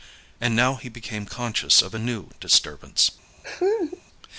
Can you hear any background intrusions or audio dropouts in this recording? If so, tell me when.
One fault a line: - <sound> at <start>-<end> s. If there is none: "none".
- laugh at 3.4-4.0 s